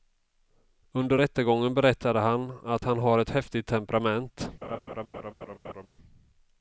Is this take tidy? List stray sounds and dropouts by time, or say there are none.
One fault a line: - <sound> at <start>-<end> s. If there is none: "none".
- laugh at 4.6-5.9 s